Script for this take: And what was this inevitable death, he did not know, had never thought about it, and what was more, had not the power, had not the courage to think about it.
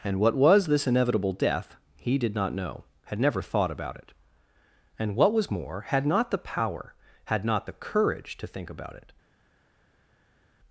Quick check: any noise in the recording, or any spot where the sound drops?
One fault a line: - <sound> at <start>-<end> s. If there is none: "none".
none